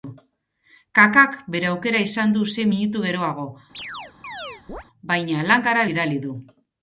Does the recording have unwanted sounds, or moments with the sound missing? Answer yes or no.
yes